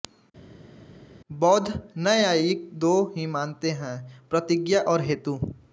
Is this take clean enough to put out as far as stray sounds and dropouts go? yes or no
yes